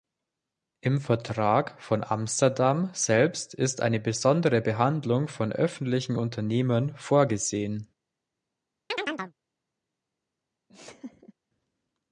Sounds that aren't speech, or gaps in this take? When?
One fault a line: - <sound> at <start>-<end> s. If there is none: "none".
- chirp at 8.9-9.3 s
- laugh at 10.7-11.3 s